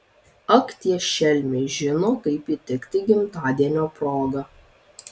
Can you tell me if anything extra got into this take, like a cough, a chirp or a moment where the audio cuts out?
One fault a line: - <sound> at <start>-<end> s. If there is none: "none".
none